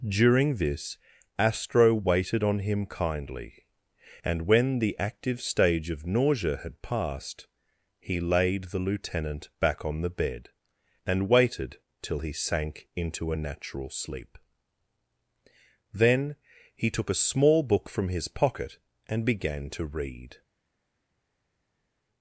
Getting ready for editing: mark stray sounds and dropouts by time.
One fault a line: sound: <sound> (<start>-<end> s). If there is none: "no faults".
no faults